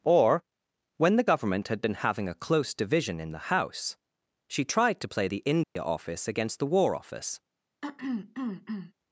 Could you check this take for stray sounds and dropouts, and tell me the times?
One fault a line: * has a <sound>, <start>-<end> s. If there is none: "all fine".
* has a dropout, 5.6-5.8 s
* has a throat clearing, 7.8-8.9 s